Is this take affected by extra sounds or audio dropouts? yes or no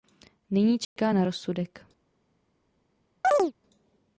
yes